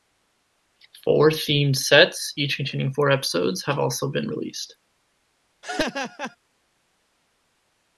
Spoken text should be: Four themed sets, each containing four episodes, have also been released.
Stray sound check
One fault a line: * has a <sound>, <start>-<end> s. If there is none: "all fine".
* has a laugh, 5.6-6.4 s